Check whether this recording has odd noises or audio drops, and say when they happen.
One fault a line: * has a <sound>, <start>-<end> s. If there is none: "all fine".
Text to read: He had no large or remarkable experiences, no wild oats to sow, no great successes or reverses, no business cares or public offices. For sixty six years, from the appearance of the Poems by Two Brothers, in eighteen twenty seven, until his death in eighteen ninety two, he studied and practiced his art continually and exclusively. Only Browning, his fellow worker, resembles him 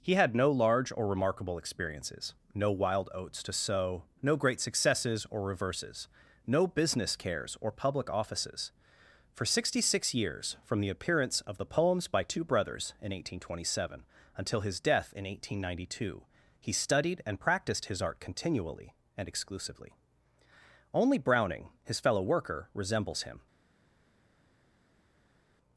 all fine